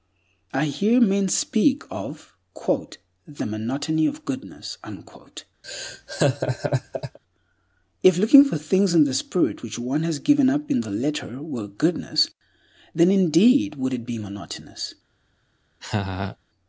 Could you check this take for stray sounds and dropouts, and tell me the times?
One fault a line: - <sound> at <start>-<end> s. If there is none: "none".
- laugh at 5.6-7.2 s
- laugh at 15.8-16.4 s